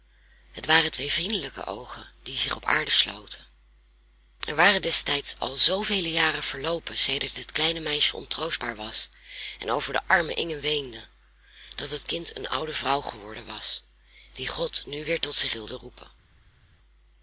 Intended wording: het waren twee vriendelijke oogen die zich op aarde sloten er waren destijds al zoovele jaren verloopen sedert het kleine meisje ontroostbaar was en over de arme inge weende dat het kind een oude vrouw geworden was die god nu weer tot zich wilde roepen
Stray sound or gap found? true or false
false